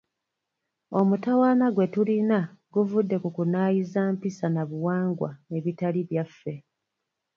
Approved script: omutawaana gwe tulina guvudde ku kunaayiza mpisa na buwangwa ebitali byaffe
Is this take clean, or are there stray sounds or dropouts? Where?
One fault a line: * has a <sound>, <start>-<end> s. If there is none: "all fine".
all fine